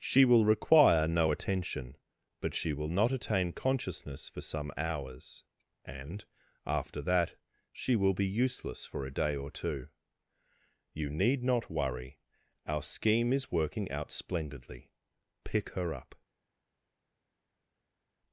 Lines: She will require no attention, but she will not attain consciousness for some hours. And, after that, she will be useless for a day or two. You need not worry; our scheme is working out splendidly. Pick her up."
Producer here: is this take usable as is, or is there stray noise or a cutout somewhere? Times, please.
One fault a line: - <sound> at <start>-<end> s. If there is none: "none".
none